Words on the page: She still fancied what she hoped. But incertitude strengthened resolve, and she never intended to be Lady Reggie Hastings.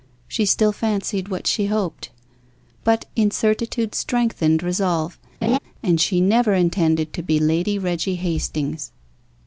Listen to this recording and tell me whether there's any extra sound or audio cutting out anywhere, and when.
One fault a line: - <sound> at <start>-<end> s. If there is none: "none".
- laugh at 5.4-5.6 s